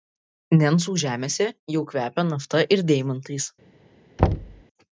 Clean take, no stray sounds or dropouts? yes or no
no